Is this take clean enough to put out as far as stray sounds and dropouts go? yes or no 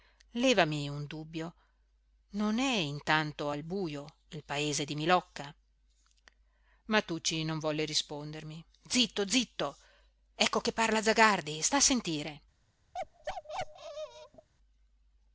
no